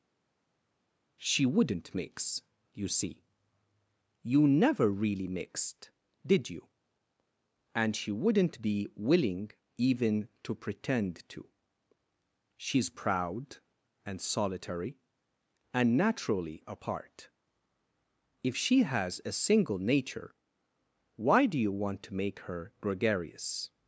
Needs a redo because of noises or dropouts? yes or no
no